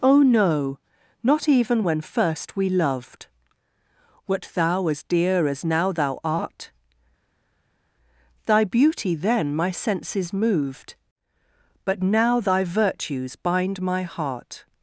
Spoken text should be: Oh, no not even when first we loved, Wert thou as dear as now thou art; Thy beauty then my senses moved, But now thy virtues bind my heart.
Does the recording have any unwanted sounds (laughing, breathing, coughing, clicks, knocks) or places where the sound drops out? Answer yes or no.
no